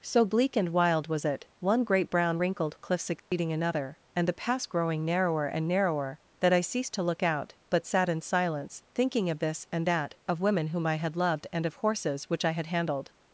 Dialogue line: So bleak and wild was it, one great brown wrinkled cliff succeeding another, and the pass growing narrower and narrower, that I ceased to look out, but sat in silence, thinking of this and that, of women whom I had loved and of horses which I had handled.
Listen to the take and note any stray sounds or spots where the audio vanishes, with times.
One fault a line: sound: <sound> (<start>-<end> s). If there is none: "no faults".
sound: dropout (3.2-3.3 s)